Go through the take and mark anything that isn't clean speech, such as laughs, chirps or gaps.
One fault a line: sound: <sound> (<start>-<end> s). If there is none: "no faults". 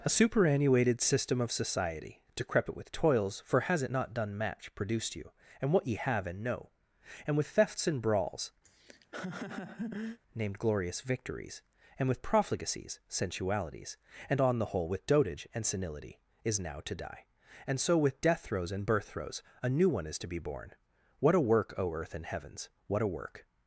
sound: laugh (8.6-10.2 s)